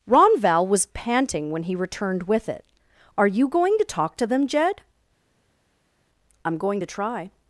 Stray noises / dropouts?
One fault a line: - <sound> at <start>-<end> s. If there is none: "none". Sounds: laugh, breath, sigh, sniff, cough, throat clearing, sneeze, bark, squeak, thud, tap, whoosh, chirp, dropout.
none